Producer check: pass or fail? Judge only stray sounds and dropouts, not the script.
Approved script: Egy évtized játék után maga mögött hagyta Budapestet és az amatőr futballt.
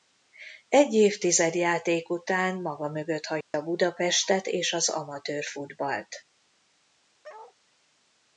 fail